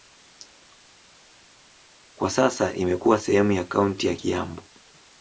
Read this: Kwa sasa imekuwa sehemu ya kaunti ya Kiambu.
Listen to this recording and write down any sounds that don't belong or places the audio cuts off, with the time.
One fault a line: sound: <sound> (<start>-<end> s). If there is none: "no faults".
no faults